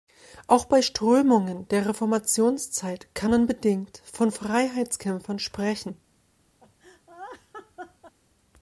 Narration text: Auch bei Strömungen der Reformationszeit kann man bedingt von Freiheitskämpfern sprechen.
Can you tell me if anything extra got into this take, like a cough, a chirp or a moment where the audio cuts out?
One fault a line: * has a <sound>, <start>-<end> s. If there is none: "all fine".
* has a laugh, 6.6-8.1 s